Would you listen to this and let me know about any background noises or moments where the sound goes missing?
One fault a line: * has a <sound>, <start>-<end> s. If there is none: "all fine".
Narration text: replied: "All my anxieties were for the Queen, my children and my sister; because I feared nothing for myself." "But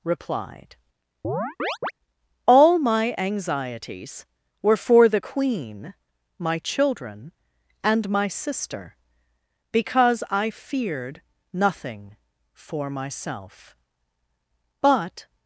* has a chirp, 1.2-1.9 s